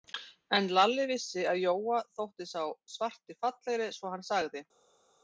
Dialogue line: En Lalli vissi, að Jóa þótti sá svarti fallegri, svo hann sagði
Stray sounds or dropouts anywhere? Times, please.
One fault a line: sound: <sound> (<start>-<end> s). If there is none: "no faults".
no faults